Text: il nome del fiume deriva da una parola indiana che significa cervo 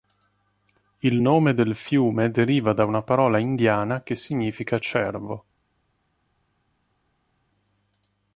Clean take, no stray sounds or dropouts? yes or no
yes